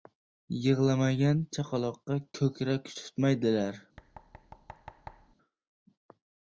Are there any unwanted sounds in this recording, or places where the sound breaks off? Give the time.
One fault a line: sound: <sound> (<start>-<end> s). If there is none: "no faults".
sound: thud (4.0-5.4 s)